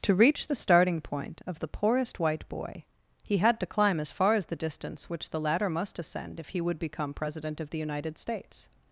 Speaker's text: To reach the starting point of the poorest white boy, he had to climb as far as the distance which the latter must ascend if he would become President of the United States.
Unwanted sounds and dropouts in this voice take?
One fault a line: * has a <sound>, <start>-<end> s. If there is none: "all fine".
all fine